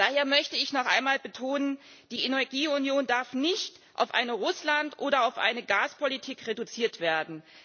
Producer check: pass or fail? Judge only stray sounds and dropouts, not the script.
pass